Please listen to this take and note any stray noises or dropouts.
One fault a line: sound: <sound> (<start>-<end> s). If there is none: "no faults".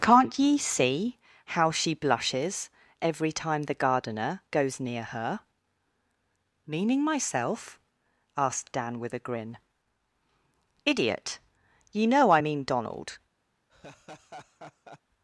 sound: laugh (13.7-15.0 s)